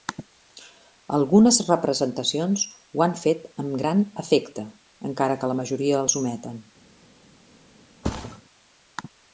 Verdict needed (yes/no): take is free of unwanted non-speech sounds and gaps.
no